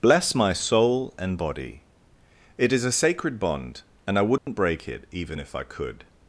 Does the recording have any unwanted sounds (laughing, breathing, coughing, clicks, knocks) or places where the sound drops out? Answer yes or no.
yes